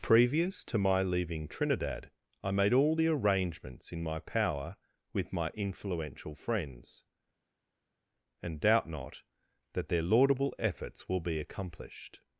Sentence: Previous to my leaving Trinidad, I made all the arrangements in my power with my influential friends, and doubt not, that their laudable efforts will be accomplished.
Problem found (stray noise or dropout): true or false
false